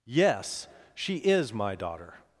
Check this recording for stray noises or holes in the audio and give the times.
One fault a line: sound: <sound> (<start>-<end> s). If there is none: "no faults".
no faults